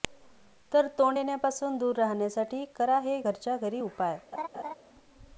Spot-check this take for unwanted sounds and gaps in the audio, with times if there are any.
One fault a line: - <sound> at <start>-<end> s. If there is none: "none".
- laugh at 4.3-4.7 s